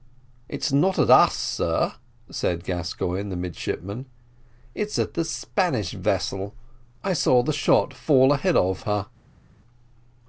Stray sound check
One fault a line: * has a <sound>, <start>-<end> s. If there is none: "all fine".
all fine